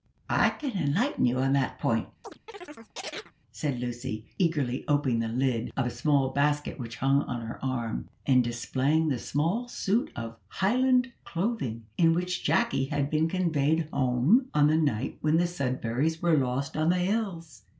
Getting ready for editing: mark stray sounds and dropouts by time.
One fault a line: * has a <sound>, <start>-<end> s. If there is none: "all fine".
* has a chirp, 2.2-3.3 s